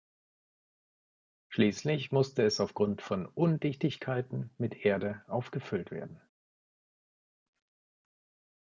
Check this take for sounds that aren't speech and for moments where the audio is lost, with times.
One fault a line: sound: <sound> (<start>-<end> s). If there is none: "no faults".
no faults